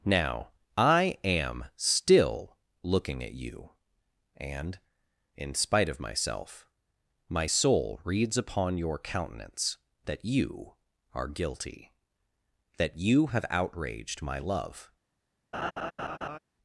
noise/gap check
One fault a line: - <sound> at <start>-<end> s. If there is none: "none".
- laugh at 15.5-16.4 s